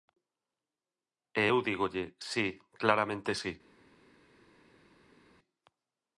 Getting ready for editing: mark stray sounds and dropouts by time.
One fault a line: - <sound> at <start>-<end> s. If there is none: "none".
none